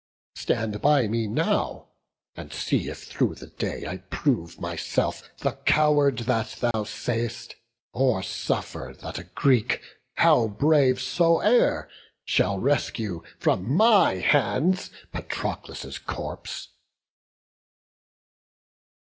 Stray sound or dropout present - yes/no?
yes